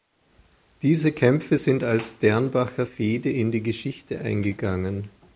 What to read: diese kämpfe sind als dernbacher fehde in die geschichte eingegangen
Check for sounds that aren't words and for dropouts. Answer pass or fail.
pass